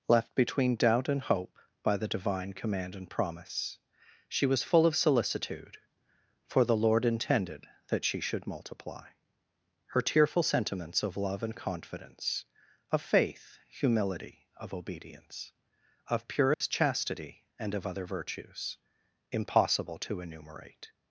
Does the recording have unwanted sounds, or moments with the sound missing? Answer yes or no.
yes